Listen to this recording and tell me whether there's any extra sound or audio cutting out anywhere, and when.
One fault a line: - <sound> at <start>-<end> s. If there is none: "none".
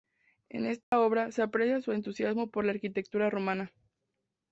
- dropout at 0.8-0.9 s